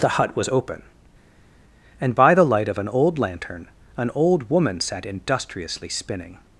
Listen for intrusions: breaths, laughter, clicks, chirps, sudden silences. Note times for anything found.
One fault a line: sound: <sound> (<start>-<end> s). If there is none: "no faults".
no faults